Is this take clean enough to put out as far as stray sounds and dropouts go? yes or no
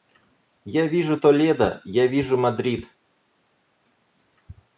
yes